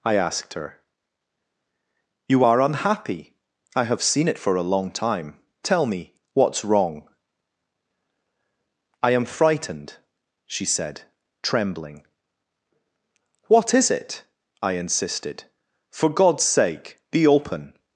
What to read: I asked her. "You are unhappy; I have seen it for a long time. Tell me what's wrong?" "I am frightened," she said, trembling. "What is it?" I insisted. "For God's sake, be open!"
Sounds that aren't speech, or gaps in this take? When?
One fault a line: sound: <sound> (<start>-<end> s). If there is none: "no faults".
no faults